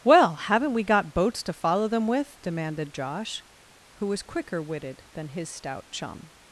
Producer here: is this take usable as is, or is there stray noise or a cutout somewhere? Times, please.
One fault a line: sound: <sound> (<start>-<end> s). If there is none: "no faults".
no faults